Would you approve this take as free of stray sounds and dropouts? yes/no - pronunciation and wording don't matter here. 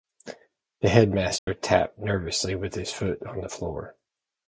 no